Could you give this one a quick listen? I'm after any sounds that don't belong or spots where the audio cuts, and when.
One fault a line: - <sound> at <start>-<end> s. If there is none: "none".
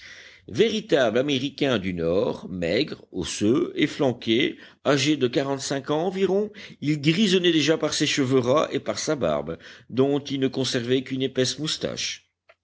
none